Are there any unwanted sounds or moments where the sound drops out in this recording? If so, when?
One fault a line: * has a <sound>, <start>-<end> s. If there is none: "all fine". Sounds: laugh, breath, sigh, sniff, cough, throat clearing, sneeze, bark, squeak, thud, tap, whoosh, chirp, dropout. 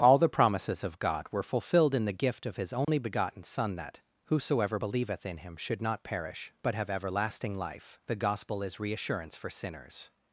* has a dropout, 2.8-2.9 s